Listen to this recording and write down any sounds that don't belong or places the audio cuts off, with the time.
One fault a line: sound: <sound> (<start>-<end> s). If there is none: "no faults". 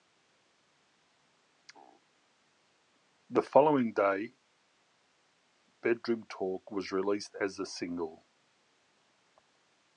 no faults